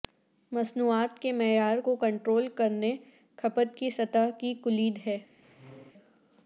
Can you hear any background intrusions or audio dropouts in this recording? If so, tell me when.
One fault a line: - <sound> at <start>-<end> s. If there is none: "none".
- squeak at 5.4-5.9 s